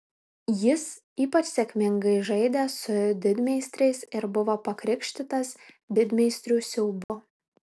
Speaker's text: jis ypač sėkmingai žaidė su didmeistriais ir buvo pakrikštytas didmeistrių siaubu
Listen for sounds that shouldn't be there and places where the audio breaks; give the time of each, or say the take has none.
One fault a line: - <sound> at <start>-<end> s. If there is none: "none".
- dropout at 7.0-7.1 s